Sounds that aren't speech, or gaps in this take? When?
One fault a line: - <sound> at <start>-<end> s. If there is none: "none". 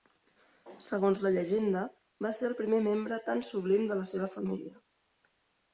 none